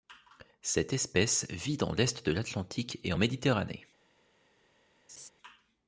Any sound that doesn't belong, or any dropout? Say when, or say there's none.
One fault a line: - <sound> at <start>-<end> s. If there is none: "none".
- laugh at 5.1-5.3 s